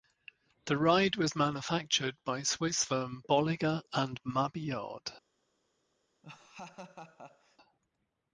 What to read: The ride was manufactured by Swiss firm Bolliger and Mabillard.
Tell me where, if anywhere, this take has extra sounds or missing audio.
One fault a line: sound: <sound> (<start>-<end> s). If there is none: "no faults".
sound: laugh (6.2-7.6 s)